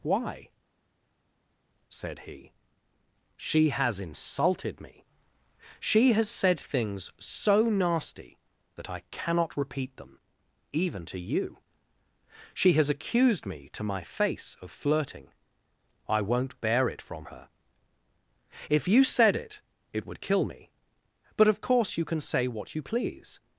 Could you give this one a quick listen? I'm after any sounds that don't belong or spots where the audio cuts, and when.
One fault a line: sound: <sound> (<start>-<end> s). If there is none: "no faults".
no faults